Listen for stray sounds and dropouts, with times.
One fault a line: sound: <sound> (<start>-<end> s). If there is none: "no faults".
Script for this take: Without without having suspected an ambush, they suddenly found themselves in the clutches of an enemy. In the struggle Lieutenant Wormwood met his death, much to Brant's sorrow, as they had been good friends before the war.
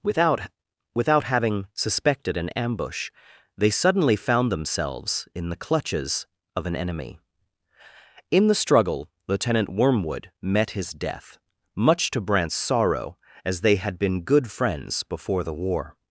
no faults